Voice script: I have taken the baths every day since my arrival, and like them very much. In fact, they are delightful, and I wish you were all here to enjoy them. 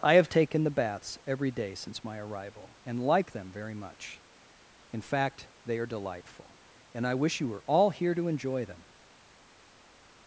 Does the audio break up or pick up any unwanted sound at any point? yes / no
no